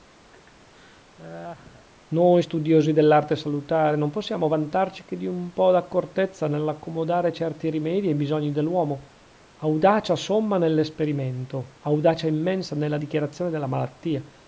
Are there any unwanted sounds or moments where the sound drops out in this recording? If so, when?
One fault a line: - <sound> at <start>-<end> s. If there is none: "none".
- laugh at 0.3-1.9 s